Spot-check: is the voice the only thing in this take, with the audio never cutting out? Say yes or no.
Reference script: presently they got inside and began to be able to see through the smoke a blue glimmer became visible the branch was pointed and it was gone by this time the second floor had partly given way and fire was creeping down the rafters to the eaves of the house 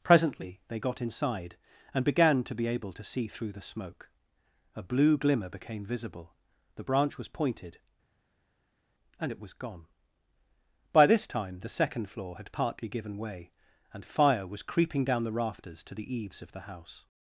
yes